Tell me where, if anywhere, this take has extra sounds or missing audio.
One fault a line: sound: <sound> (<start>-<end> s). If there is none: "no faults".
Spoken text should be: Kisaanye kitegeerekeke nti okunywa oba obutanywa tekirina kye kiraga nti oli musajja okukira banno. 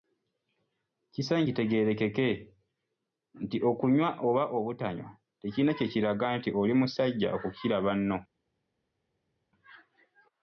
no faults